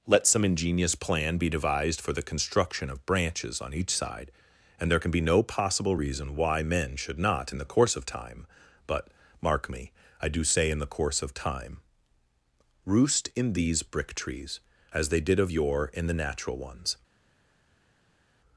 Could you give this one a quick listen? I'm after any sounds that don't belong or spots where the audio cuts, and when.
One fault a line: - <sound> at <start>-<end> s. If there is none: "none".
none